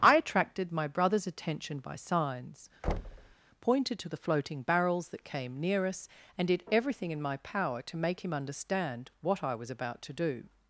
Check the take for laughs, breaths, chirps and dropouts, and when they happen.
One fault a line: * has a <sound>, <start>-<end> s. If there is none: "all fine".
* has a thud, 2.8-3.3 s